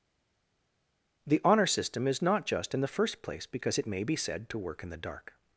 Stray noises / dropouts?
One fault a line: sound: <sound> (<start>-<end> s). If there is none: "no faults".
no faults